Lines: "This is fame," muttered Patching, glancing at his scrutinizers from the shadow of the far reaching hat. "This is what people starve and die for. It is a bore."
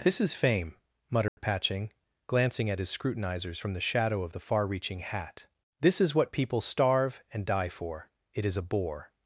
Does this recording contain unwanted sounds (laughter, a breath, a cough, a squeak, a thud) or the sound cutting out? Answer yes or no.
yes